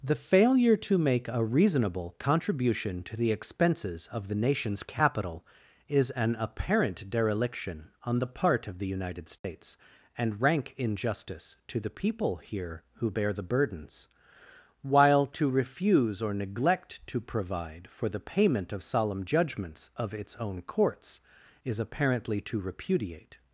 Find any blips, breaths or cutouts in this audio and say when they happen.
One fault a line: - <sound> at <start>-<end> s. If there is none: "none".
- dropout at 9.4-9.4 s